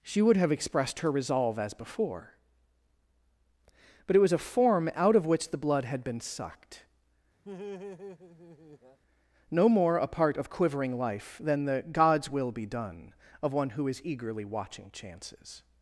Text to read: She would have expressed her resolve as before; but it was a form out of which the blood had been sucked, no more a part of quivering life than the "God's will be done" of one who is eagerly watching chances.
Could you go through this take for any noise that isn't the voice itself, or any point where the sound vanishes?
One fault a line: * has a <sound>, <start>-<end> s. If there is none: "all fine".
* has a laugh, 7.4-9.0 s